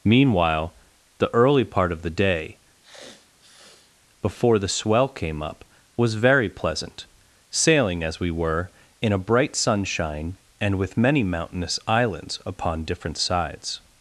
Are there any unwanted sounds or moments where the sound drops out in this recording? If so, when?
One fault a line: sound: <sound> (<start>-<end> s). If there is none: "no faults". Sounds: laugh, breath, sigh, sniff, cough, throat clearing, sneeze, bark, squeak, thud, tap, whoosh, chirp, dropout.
sound: sniff (2.8-3.9 s)